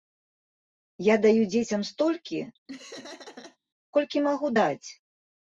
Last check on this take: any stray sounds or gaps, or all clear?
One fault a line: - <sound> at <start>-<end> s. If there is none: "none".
- laugh at 2.7-3.6 s